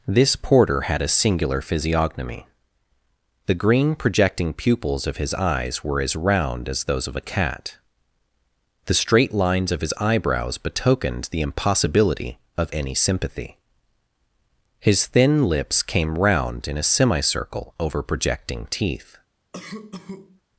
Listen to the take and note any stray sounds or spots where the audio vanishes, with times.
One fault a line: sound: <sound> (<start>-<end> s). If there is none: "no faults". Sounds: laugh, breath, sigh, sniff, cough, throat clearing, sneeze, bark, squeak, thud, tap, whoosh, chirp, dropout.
sound: cough (19.5-20.4 s)